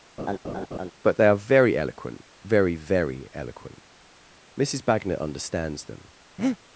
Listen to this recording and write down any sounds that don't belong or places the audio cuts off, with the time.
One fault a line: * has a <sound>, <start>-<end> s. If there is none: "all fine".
* has a laugh, 0.2-0.9 s
* has a breath, 6.4-6.6 s